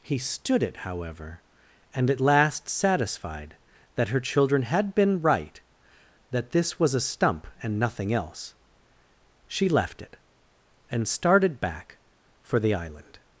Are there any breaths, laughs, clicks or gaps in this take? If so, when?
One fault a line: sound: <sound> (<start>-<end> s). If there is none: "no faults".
no faults